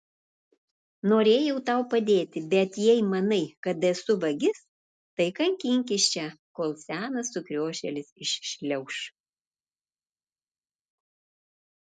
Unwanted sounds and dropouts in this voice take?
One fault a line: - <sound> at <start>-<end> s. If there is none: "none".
none